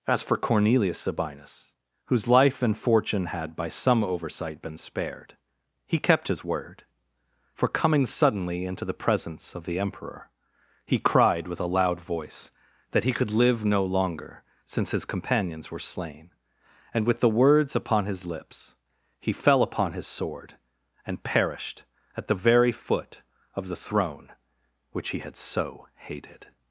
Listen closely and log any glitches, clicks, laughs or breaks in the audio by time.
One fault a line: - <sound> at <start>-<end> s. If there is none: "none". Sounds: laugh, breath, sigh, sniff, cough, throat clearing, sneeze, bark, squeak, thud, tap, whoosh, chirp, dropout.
none